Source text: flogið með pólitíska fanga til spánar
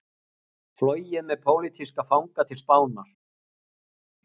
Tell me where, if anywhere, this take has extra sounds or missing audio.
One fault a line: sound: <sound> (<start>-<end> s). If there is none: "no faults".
no faults